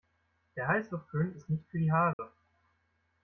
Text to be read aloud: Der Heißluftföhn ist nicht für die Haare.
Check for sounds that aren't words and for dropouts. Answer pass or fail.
fail